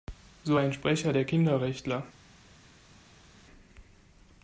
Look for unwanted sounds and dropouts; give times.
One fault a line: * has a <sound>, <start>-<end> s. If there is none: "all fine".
all fine